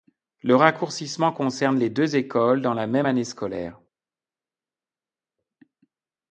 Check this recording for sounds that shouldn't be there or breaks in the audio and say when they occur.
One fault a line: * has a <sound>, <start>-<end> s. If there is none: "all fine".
all fine